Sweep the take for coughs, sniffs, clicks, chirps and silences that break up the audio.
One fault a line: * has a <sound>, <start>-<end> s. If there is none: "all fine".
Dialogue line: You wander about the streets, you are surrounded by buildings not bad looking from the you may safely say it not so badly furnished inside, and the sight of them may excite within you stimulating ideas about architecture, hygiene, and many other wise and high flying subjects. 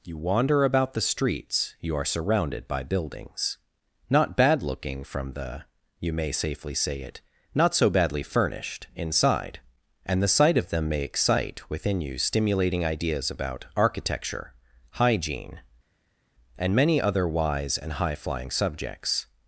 all fine